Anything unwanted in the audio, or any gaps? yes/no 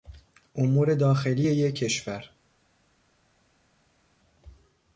no